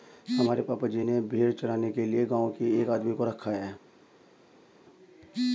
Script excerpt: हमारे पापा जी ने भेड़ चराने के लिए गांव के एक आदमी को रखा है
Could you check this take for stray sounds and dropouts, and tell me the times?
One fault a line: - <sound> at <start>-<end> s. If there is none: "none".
none